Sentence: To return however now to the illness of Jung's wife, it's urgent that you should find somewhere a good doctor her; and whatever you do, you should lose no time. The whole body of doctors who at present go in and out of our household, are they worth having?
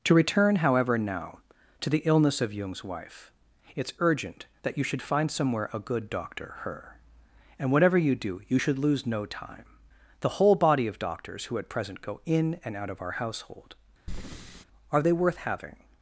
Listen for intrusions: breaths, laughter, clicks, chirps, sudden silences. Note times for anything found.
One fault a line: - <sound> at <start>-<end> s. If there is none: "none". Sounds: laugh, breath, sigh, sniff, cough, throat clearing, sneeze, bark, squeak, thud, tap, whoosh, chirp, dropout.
- breath at 14.1-14.6 s